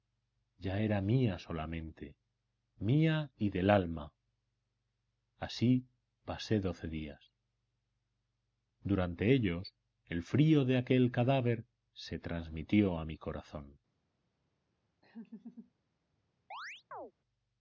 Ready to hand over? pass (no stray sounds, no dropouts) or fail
fail